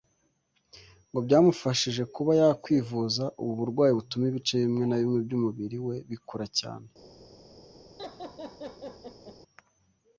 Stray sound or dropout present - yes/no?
yes